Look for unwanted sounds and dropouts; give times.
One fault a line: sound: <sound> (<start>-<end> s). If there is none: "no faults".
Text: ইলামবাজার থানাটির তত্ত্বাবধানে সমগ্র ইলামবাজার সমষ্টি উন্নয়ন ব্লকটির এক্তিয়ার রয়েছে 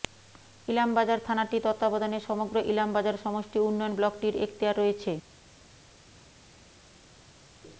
no faults